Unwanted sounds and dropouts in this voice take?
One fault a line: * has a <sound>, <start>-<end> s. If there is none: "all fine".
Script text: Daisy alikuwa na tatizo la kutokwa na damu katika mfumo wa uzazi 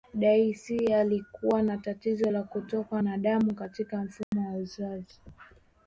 * has a dropout, 4.2-4.3 s